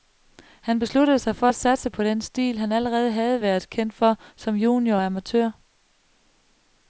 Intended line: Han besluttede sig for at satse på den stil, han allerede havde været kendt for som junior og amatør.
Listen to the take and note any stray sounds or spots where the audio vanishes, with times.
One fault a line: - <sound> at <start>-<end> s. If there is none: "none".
none